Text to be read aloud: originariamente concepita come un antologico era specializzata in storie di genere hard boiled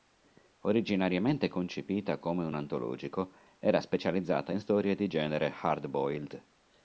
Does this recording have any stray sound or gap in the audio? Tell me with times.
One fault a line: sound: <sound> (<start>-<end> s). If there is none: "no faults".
no faults